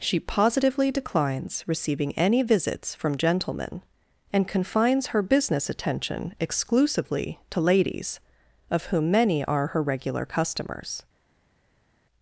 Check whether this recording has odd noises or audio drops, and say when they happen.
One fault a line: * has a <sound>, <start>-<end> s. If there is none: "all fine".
all fine